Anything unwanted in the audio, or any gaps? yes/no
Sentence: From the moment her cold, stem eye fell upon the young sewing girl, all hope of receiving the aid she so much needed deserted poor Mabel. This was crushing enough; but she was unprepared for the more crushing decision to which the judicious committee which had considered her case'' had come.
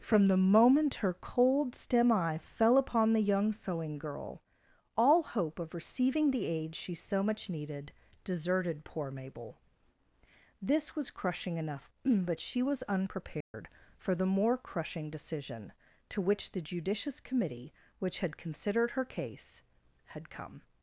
yes